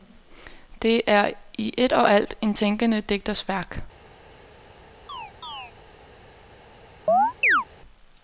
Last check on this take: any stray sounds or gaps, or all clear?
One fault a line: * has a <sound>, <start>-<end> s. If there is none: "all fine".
* has a chirp, 5.1-5.7 s
* has a chirp, 7.1-7.7 s